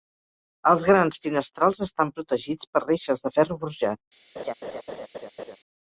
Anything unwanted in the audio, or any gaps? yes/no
yes